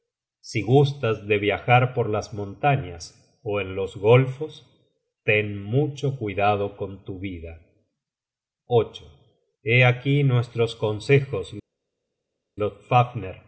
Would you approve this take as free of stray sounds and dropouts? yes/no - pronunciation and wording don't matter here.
yes